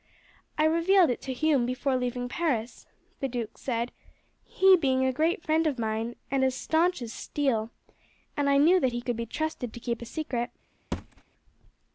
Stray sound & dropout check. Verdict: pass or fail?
fail